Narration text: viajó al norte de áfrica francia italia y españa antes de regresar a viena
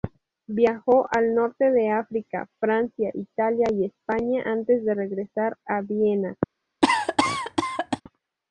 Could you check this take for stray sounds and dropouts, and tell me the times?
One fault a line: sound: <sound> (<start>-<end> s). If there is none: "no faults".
sound: cough (6.8-8.0 s)